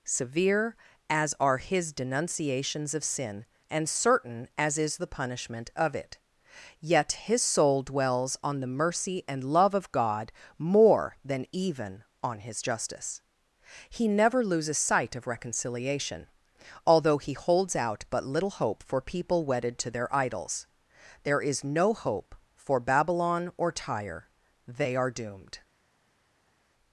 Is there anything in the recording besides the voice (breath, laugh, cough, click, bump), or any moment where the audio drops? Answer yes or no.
no